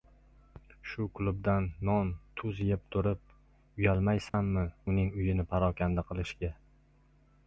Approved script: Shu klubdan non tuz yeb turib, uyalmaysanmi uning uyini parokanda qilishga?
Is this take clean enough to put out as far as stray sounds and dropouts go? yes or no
no